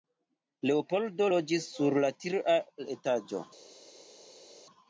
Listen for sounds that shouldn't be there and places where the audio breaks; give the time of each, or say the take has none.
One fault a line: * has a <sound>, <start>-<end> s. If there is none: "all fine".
all fine